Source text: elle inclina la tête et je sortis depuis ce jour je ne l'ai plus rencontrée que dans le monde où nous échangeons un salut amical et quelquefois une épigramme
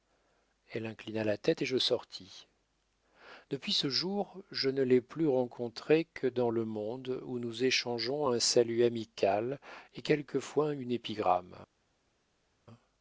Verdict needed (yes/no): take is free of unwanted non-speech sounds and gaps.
yes